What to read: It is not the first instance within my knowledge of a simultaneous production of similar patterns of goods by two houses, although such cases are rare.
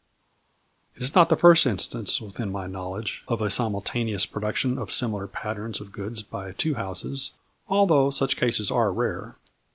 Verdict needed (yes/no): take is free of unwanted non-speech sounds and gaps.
yes